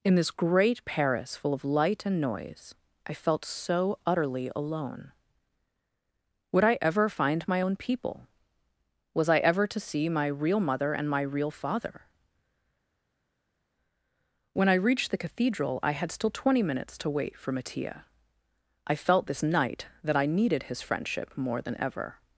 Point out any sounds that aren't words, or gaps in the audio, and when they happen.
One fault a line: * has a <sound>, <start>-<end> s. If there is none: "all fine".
all fine